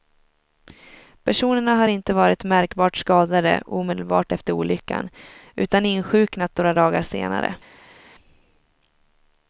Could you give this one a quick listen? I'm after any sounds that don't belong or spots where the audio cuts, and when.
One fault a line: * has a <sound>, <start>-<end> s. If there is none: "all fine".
all fine